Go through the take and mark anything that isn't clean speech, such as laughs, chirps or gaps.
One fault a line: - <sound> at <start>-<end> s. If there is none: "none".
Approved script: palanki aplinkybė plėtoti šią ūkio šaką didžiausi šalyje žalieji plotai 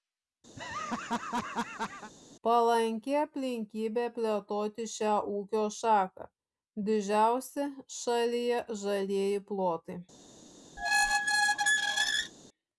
- laugh at 0.6-2.1 s
- squeak at 10.8-12.3 s